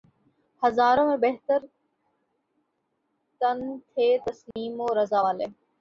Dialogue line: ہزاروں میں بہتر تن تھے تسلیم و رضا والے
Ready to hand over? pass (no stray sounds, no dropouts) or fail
fail